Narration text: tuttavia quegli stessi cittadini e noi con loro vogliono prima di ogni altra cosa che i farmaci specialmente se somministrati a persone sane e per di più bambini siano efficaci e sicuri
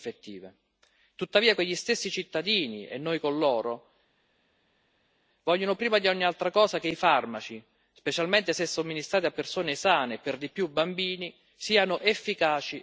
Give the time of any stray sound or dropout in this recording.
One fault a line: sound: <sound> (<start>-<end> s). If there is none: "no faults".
no faults